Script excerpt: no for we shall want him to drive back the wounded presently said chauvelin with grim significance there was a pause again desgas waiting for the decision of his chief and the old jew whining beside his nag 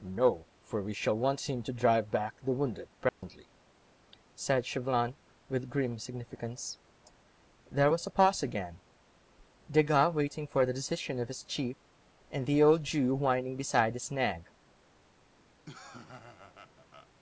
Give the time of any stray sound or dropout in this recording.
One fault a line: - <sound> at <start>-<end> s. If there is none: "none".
- dropout at 3.1-3.2 s
- laugh at 15.7-17.1 s